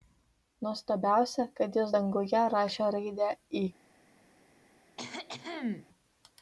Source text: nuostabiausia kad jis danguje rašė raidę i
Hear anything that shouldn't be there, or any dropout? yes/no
yes